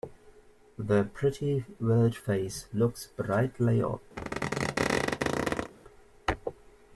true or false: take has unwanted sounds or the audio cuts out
true